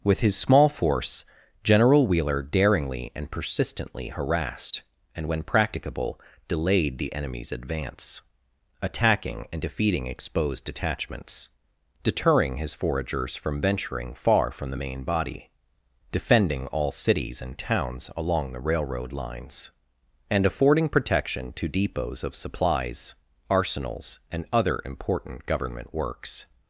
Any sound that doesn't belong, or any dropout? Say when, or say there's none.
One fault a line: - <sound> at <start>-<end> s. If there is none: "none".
none